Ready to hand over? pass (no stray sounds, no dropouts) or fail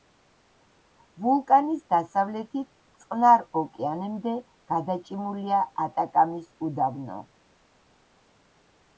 pass